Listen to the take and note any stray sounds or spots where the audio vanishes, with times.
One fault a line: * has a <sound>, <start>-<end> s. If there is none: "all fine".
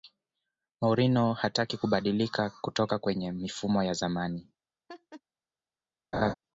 * has a laugh, 4.9-5.2 s
* has a laugh, 6.1-6.3 s